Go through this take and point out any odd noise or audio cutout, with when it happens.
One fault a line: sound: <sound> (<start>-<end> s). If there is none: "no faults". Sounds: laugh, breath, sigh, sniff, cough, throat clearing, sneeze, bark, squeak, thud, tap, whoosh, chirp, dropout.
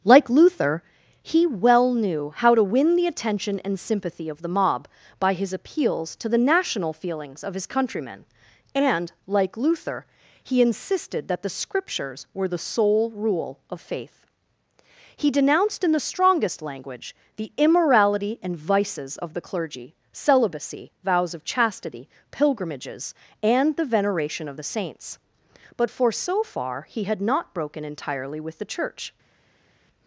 no faults